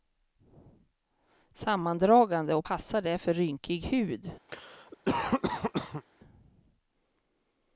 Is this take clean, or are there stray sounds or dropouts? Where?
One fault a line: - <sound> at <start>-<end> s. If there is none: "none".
- cough at 4.5-6.0 s